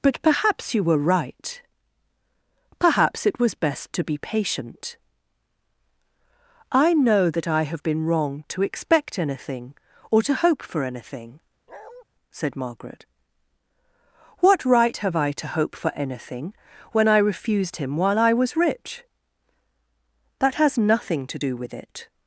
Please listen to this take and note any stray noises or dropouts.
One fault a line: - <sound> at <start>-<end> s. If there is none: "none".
- bark at 11.7-12.0 s